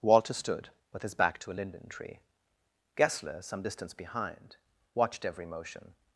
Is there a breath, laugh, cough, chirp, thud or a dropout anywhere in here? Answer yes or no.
no